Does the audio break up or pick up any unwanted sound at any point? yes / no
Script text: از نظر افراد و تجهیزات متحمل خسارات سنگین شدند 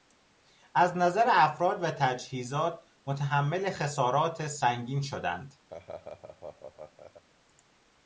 yes